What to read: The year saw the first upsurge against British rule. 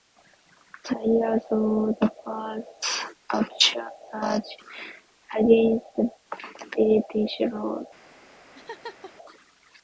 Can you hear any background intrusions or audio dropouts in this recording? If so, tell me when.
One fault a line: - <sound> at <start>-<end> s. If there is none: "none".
- laugh at 8.5-9.1 s